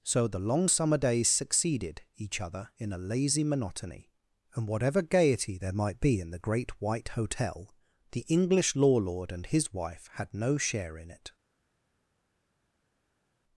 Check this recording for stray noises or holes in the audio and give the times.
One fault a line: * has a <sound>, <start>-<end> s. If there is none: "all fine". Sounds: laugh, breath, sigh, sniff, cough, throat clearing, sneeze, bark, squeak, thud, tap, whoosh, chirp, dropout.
all fine